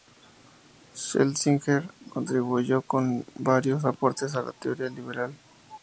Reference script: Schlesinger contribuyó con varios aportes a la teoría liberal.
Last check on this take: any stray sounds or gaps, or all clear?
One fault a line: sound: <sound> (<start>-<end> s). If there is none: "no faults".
no faults